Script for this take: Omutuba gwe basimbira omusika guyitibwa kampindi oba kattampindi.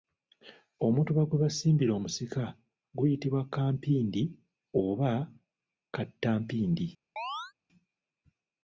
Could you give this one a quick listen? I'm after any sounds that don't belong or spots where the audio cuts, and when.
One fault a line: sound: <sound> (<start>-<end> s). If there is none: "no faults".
sound: chirp (7.2-7.5 s)